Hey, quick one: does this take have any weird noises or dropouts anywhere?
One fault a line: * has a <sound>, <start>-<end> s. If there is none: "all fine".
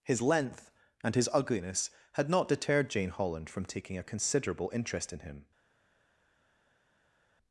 all fine